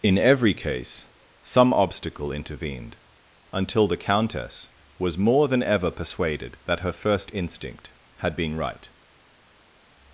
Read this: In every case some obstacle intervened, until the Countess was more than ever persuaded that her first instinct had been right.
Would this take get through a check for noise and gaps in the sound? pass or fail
pass